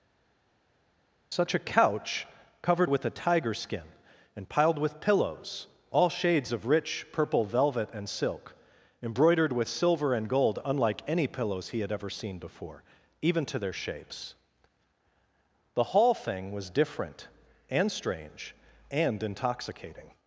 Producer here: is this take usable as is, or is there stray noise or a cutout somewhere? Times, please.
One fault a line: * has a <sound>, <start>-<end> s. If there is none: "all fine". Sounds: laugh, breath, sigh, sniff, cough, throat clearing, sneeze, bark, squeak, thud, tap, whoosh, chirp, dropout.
all fine